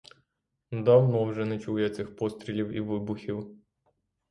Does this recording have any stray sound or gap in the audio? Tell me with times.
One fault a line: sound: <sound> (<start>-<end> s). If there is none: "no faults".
no faults